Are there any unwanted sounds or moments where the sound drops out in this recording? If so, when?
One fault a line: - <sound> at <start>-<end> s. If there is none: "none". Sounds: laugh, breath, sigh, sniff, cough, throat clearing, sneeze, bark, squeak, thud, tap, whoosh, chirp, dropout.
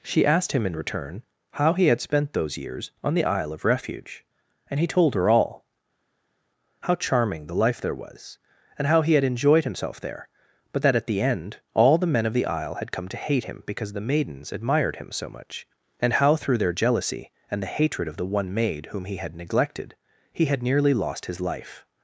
none